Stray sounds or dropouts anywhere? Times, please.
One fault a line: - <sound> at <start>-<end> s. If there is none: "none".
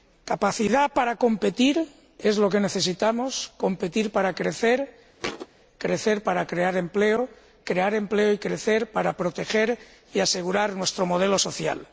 - thud at 5.2-5.5 s